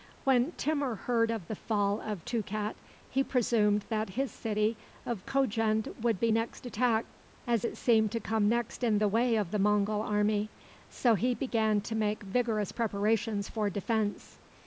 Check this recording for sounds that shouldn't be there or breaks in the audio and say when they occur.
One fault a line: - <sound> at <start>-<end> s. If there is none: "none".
none